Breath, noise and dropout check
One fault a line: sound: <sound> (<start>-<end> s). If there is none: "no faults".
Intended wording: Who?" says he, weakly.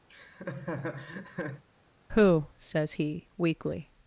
sound: laugh (0.1-1.6 s)